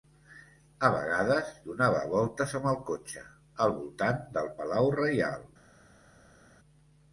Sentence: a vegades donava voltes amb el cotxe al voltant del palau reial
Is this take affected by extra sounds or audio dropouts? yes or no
no